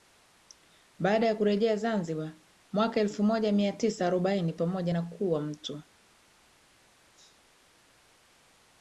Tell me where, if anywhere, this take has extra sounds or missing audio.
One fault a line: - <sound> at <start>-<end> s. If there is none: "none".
none